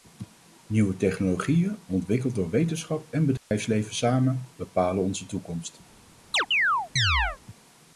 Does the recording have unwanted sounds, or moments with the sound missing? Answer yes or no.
yes